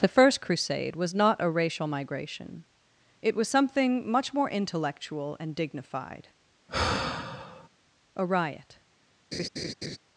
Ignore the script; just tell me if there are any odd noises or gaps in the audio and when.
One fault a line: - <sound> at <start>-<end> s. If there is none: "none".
- sigh at 6.7-7.7 s
- laugh at 9.3-10.0 s